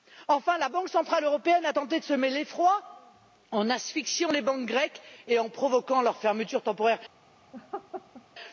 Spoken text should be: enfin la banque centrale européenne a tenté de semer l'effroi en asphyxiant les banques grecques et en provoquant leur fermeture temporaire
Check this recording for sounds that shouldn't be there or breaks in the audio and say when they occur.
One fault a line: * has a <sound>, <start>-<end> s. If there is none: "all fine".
* has a laugh, 7.5-8.2 s